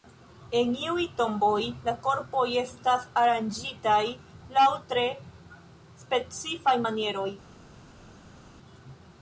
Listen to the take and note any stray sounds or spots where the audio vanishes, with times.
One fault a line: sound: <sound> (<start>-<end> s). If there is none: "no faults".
no faults